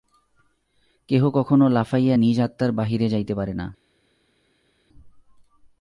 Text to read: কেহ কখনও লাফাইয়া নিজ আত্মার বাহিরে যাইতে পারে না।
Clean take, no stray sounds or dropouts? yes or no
yes